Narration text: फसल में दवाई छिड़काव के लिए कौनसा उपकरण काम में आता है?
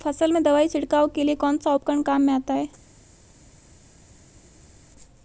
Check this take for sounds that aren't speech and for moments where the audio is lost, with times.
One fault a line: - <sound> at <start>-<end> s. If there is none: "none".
none